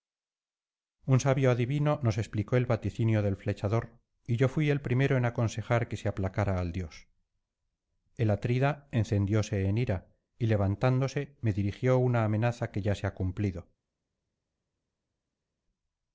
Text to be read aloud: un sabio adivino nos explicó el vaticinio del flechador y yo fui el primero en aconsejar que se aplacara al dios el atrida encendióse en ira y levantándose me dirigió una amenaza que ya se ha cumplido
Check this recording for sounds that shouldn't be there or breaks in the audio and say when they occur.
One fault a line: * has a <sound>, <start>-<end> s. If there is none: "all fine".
all fine